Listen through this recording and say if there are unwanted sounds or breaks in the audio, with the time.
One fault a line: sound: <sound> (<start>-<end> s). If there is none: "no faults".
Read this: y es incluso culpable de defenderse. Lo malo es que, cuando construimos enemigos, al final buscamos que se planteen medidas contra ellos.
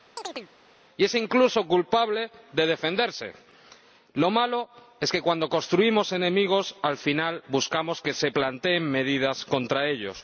sound: chirp (0.2-0.5 s)